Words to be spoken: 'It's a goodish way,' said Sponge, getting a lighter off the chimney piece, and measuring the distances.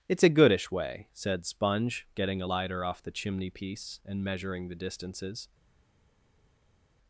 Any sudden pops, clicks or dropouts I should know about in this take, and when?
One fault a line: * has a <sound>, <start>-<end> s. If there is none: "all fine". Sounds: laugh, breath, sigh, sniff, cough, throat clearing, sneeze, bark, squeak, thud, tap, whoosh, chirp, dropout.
all fine